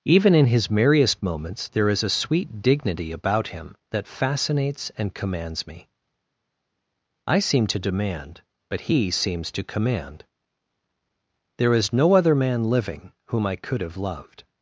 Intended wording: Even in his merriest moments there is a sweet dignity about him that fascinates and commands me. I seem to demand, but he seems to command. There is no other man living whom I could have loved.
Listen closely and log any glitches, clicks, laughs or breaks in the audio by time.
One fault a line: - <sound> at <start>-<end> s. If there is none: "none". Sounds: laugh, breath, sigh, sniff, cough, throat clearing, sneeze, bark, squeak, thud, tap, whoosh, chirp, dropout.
none